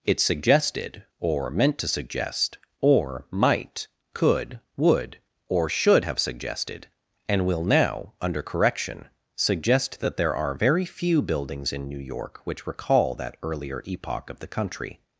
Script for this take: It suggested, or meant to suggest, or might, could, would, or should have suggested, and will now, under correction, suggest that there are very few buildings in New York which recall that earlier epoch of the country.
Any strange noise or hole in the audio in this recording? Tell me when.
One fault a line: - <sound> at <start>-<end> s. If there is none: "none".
none